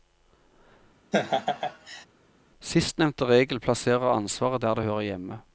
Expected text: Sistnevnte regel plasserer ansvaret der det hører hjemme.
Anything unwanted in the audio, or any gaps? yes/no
yes